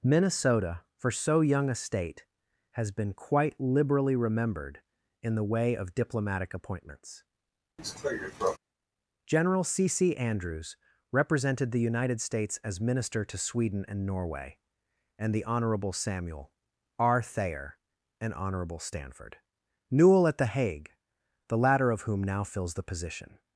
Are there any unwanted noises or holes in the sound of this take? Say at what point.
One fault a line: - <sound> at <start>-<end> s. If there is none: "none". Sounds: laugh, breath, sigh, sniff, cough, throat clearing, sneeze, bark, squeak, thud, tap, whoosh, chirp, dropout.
- cough at 7.8-8.6 s